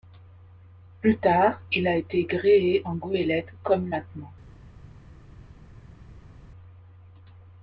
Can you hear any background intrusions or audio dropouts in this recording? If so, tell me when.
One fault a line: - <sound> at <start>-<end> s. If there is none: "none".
none